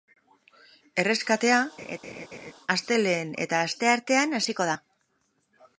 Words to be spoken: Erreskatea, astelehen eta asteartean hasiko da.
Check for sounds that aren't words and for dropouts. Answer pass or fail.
fail